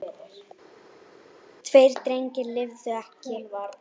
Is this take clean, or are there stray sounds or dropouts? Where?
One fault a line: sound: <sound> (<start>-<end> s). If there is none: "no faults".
no faults